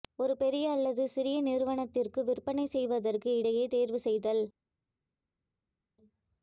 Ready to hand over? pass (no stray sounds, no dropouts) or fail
pass